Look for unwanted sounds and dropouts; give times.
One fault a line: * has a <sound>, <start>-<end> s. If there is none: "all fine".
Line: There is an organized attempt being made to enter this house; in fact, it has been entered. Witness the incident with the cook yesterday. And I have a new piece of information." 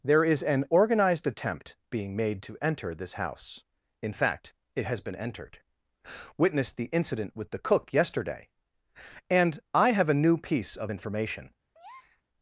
* has a breath, 11.7-12.2 s